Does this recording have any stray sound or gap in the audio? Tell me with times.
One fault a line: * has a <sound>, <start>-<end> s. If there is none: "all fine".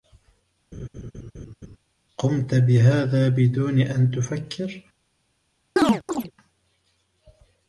* has a laugh, 0.7-1.8 s
* has a chirp, 5.8-6.3 s